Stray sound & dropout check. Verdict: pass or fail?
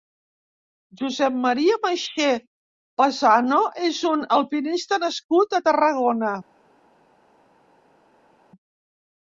pass